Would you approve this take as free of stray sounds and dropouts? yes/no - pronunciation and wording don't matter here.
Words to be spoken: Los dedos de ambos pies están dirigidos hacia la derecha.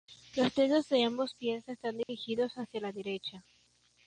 no